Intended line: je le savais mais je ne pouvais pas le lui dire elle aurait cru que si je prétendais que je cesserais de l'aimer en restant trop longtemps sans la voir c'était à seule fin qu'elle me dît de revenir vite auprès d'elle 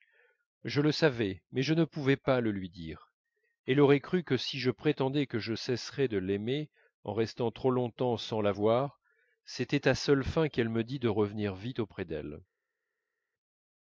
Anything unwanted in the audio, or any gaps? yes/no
no